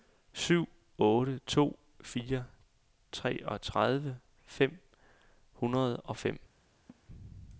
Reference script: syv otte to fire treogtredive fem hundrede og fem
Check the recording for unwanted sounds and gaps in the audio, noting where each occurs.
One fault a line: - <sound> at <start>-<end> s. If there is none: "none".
- laugh at 6.9-7.0 s